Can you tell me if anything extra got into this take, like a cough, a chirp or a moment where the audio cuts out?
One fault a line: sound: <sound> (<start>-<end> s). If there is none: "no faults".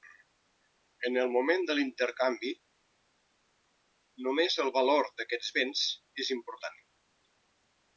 no faults